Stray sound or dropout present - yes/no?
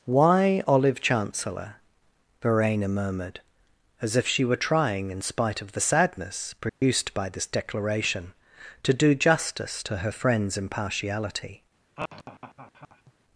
yes